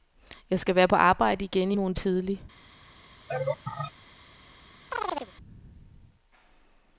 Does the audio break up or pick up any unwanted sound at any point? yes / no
yes